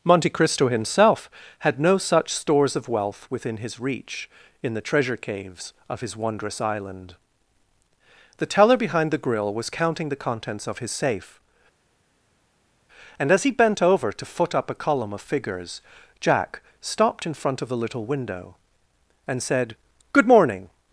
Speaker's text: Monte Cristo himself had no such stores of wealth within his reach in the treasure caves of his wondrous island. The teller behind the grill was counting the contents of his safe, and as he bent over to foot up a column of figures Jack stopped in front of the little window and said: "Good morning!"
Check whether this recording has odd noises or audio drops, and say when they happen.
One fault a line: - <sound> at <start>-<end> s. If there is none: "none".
none